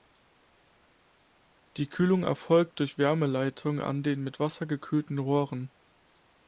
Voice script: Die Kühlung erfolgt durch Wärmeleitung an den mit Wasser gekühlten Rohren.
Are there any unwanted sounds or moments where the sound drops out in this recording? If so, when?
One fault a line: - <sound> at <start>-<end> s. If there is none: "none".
none